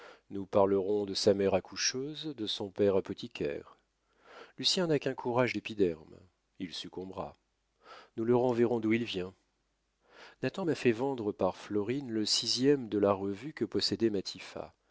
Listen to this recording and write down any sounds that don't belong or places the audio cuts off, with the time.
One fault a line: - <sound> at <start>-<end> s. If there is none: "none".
none